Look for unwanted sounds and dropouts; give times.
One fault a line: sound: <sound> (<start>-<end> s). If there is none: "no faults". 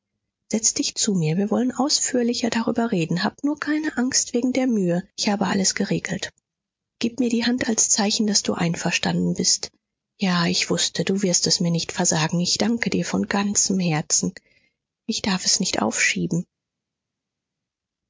no faults